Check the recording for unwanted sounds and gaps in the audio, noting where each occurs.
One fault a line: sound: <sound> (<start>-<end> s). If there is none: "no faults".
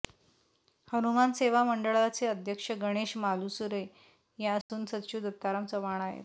sound: dropout (4.6-4.7 s)